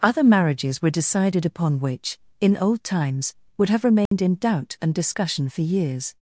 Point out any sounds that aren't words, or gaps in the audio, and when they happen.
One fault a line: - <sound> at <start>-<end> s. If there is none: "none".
- dropout at 4.1-4.1 s